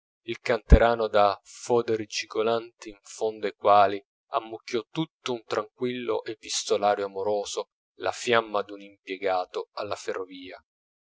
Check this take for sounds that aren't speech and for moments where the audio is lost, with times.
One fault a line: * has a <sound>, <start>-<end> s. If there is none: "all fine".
all fine